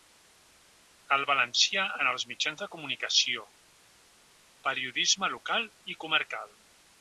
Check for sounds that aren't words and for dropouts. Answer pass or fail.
pass